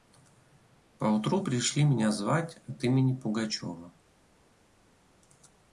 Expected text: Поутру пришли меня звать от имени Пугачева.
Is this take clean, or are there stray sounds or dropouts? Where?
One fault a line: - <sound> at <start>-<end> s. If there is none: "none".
none